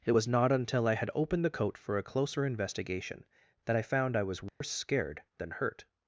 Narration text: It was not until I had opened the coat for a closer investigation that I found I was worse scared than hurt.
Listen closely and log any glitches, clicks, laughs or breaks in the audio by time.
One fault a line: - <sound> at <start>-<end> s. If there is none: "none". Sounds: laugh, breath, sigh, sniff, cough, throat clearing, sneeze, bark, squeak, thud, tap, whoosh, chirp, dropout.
- dropout at 4.5-4.6 s